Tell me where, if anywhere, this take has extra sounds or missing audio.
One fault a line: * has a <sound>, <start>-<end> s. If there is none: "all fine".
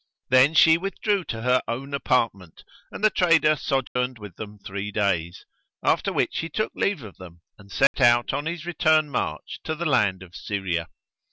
* has a dropout, 3.9-4.0 s
* has a dropout, 7.9-7.9 s